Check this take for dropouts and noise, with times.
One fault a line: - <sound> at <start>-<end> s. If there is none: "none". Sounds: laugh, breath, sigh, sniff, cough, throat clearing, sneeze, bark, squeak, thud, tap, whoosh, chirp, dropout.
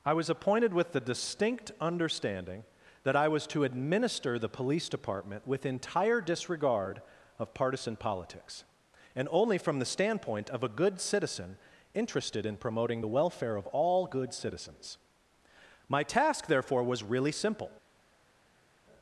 none